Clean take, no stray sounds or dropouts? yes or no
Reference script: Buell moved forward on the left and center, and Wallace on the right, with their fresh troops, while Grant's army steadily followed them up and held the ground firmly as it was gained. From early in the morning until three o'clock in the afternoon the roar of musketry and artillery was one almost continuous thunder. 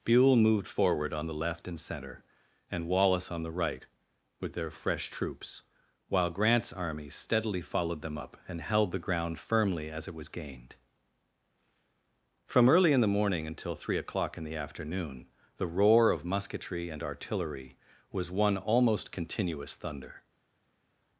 yes